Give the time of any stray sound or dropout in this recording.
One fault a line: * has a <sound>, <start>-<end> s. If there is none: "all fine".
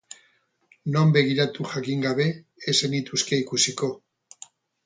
all fine